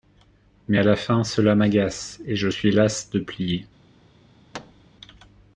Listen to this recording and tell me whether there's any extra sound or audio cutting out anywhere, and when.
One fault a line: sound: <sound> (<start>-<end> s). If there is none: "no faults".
sound: thud (4.5-4.9 s)